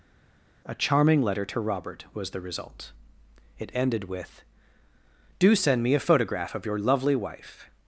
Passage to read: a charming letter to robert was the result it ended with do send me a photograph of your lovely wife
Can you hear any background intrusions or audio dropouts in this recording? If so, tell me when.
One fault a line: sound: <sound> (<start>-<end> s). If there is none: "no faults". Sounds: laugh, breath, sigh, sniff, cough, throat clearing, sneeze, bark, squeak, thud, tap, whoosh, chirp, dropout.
no faults